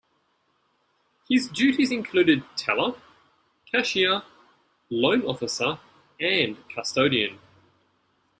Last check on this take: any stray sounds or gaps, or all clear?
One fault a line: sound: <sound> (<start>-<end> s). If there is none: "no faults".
no faults